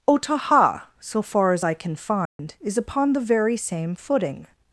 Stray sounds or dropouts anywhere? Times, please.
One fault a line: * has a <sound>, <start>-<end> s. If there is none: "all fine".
* has a dropout, 2.3-2.4 s